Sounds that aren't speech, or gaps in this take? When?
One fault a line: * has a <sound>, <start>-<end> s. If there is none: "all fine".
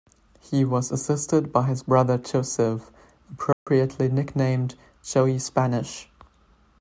* has a dropout, 3.5-3.7 s